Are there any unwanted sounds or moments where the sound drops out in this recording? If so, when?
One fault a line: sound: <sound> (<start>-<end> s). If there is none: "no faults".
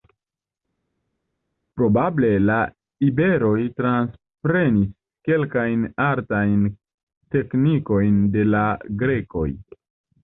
no faults